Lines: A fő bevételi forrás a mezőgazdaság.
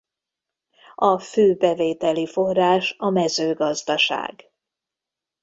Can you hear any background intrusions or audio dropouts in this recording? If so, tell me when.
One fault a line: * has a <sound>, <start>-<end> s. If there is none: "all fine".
all fine